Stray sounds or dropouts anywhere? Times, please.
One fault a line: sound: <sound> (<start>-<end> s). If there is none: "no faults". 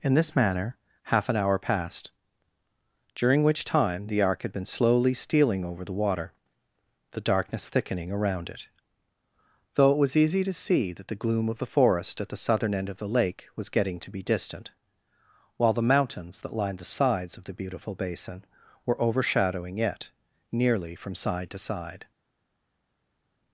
no faults